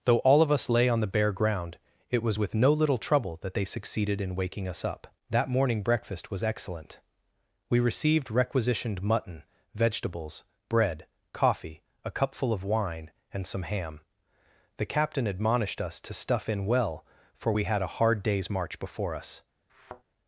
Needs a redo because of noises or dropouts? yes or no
yes